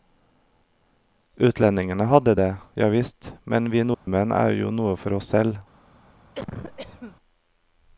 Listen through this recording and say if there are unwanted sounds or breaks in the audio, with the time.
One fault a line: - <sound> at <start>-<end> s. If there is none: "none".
- dropout at 3.9-4.1 s
- cough at 6.3-7.2 s